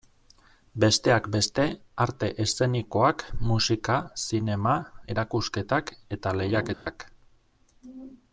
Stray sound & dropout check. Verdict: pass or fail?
fail